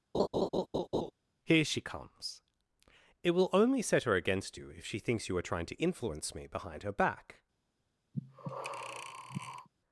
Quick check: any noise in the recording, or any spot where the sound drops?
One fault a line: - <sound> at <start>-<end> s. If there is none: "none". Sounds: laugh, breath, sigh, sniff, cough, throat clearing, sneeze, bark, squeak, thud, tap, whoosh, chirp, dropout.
- laugh at 0.1-1.1 s
- breath at 8.1-9.7 s